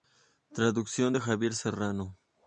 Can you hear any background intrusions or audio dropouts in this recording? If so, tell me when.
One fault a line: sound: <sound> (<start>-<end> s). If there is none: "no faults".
no faults